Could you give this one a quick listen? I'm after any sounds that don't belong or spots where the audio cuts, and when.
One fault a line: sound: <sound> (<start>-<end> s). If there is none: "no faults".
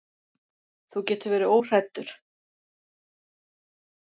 no faults